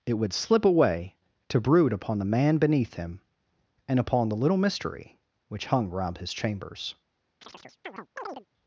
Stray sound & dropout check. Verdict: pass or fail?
fail